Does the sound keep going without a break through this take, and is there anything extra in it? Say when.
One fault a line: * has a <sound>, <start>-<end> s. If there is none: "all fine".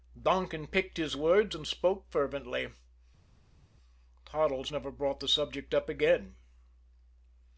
all fine